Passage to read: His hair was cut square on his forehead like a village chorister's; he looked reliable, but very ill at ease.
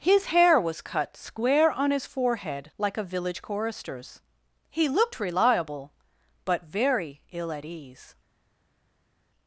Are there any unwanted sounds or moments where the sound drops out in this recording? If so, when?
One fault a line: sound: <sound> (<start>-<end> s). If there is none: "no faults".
no faults